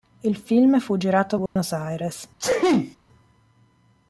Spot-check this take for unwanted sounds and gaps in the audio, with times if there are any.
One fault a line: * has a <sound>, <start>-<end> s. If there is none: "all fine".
* has a dropout, 1.5-1.6 s
* has a sneeze, 2.4-3.0 s